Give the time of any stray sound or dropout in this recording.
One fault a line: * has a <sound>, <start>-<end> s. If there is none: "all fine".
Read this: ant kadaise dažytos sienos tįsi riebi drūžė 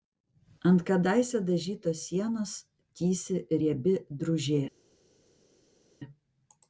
all fine